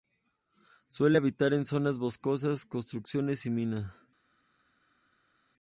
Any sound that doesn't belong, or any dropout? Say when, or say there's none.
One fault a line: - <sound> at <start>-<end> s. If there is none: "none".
none